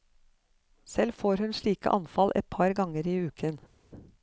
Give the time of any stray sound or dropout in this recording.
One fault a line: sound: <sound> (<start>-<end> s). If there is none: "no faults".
no faults